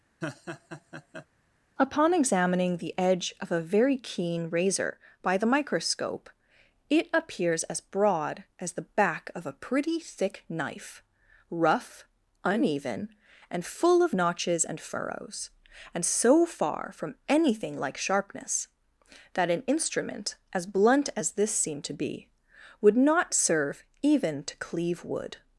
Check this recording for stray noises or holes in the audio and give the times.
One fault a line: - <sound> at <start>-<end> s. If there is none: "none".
- laugh at 0.2-1.3 s